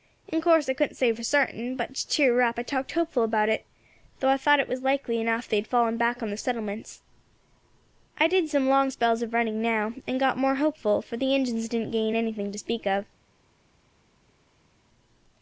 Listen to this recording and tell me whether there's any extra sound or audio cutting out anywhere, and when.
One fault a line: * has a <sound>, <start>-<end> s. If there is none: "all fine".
all fine